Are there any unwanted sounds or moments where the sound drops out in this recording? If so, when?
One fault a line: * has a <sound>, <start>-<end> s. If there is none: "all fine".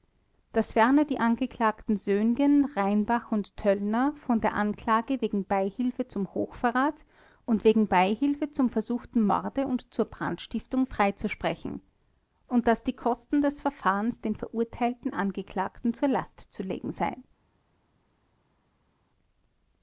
all fine